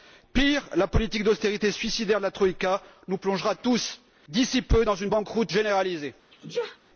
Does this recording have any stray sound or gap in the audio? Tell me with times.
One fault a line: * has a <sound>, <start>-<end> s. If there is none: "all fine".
* has a sneeze, 6.3-6.8 s